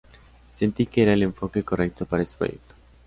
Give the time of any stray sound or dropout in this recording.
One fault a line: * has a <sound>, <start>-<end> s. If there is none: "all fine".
all fine